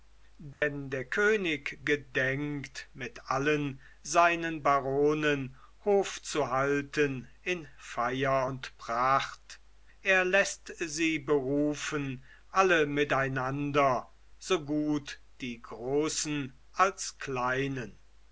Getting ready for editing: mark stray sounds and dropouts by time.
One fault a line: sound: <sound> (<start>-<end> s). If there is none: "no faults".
sound: dropout (0.5-0.6 s)